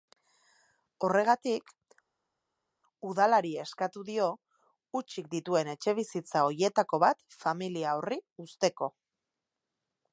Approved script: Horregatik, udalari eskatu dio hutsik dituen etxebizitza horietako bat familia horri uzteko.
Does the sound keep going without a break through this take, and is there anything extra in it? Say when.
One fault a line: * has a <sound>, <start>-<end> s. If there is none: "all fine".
all fine